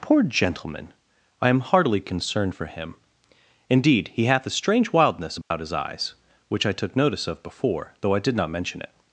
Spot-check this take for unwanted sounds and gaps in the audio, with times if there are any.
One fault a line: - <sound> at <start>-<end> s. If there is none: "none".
- dropout at 5.4-5.5 s